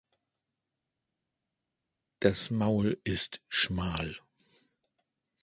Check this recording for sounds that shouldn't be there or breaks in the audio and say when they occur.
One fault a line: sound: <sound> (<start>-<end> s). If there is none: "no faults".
no faults